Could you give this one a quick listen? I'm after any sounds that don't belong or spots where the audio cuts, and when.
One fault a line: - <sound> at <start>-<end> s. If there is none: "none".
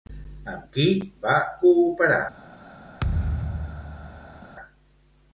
- thud at 3.0-4.4 s